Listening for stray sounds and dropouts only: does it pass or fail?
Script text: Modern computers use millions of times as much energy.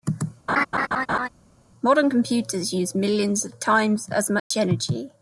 fail